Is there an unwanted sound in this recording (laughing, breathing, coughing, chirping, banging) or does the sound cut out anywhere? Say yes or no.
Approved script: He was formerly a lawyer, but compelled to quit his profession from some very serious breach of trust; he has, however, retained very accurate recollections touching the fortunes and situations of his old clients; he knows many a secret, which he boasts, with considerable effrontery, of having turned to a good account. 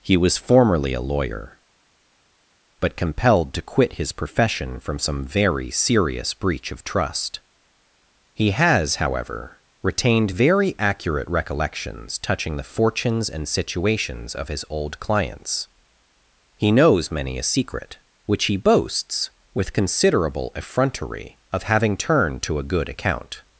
no